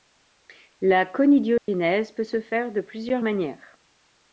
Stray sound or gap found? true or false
true